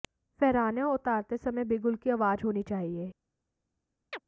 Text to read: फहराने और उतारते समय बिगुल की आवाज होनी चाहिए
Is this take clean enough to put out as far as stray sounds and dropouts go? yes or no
no